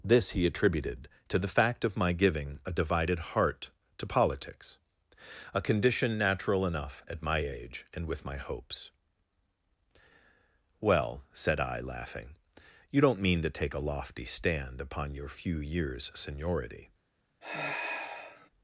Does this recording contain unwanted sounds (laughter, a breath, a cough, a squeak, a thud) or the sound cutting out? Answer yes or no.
yes